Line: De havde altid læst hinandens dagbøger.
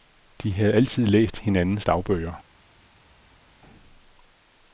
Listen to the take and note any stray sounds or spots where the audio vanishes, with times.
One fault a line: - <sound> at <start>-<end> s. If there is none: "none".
none